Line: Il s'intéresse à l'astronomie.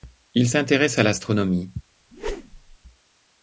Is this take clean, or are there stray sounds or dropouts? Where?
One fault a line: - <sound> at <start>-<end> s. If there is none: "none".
- whoosh at 2.1-2.8 s